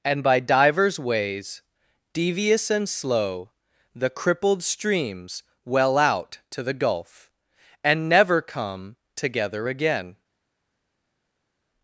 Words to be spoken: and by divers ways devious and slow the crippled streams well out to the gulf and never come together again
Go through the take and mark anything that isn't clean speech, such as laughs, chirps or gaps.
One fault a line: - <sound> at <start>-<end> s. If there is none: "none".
none